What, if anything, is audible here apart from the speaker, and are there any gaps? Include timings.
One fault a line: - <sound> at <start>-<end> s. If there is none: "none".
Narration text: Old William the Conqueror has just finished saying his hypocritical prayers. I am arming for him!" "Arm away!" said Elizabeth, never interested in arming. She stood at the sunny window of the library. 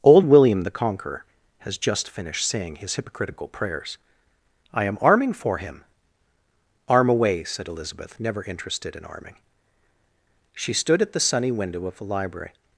none